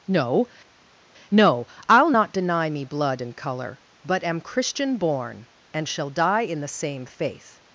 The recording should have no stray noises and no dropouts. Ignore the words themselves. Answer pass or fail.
pass